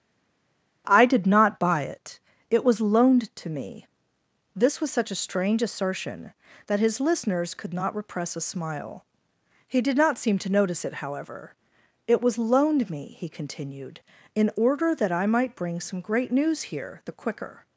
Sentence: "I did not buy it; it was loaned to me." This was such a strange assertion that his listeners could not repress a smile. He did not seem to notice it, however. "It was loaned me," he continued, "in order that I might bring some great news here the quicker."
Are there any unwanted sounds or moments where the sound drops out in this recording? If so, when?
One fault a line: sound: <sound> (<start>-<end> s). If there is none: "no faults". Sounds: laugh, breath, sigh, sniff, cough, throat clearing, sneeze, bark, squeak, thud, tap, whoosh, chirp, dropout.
no faults